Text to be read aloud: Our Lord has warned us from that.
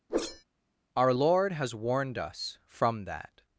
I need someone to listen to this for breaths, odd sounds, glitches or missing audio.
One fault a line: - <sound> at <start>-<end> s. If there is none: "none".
- whoosh at 0.1-0.4 s